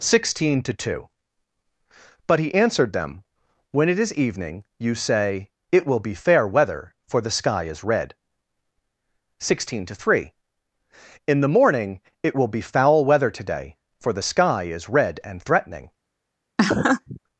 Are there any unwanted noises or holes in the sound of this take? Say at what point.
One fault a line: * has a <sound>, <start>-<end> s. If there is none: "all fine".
* has a laugh, 16.6-17.2 s